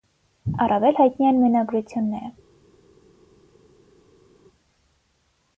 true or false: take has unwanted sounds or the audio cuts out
false